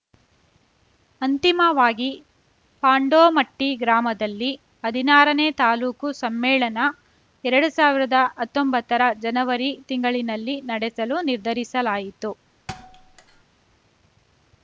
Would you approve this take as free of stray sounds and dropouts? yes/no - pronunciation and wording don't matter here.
no